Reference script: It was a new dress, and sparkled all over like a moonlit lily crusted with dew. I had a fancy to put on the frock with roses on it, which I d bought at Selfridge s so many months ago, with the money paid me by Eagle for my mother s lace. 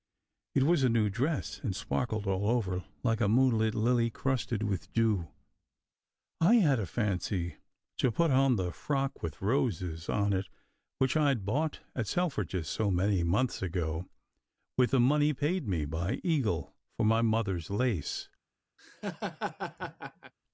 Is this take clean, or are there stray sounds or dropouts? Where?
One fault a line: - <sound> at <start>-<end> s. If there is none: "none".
- laugh at 18.8-20.3 s